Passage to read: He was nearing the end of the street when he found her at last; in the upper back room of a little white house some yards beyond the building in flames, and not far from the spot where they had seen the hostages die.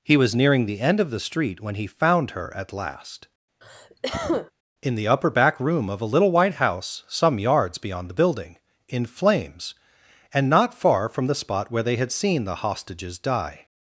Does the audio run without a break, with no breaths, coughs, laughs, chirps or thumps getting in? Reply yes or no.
no